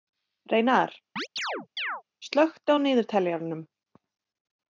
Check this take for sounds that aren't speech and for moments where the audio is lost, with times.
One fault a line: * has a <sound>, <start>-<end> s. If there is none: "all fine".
* has a chirp, 1.2-2.0 s